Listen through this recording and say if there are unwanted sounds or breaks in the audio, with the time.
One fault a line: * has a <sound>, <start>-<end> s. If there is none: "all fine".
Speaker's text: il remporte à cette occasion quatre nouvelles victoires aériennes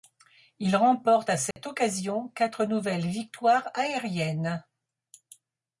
* has a dropout, 1.5-1.6 s